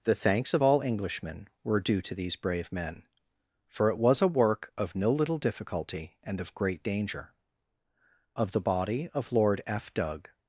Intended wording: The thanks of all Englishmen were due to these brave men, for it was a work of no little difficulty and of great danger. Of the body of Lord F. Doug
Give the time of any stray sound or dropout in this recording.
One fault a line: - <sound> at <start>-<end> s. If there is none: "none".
none